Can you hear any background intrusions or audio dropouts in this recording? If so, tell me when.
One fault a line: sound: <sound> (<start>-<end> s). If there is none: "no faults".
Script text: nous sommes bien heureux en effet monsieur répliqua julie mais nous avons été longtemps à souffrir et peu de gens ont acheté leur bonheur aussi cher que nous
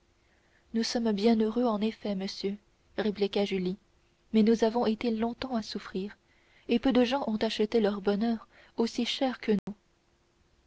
sound: dropout (9.6-9.7 s)